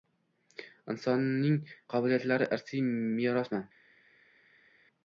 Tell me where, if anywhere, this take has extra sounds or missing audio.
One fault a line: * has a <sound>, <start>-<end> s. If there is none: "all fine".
all fine